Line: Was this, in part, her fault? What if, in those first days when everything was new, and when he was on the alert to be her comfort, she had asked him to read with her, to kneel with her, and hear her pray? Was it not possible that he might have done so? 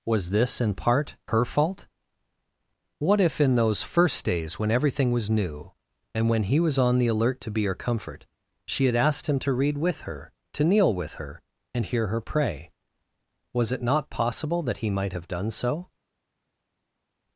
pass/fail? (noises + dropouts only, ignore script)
pass